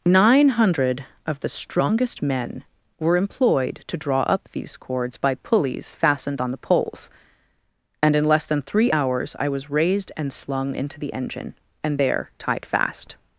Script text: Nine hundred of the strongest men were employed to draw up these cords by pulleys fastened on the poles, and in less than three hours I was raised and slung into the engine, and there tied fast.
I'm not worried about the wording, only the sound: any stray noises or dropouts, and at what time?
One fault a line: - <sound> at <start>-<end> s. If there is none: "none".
none